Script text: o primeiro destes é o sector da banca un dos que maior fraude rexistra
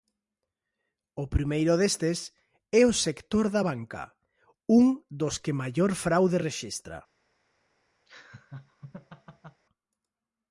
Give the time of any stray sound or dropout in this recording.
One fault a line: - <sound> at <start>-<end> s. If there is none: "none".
- laugh at 8.1-9.6 s